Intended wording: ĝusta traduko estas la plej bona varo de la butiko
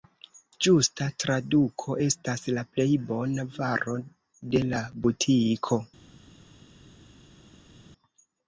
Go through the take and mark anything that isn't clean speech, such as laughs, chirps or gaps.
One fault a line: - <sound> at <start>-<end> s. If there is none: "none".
none